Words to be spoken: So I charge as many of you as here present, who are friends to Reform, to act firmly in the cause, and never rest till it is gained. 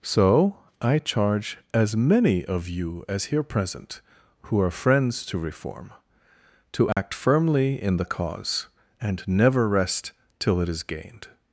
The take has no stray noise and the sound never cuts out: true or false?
false